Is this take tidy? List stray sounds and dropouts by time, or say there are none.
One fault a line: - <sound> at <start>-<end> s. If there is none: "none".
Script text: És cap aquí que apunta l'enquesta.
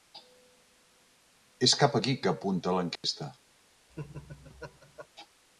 - dropout at 3.0-3.0 s
- laugh at 3.9-5.1 s